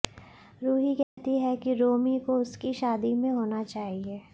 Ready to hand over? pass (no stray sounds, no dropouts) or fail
fail